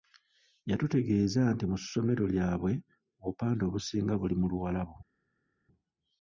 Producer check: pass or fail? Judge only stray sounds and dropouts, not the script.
pass